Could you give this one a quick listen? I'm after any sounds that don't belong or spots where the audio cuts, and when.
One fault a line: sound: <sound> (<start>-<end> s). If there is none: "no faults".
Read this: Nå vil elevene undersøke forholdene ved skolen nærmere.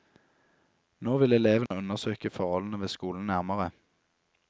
sound: dropout (1.7-1.7 s)